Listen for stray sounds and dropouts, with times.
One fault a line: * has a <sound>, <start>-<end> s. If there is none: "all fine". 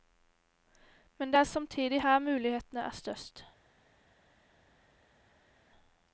all fine